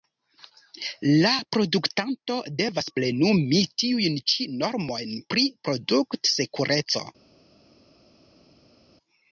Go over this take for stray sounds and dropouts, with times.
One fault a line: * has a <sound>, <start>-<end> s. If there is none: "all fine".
all fine